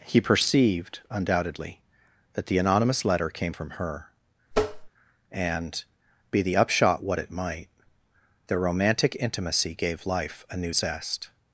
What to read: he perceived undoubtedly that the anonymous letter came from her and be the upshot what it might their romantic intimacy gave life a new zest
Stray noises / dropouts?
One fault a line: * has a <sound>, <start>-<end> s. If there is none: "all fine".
* has a tap, 4.5-4.9 s